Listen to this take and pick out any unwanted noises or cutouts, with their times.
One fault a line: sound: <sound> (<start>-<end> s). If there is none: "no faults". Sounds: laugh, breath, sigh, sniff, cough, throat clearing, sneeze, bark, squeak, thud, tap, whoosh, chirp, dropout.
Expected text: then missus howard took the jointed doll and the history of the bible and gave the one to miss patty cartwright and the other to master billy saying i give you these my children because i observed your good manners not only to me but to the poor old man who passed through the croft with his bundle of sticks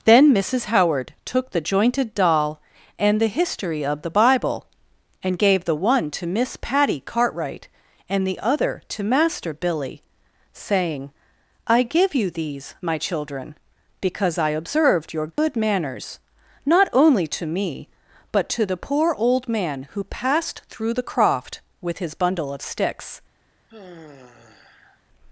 sound: dropout (15.3-15.4 s)
sound: sigh (23.7-25.0 s)